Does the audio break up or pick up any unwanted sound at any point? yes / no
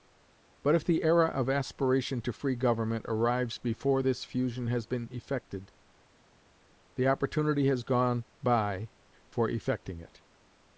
no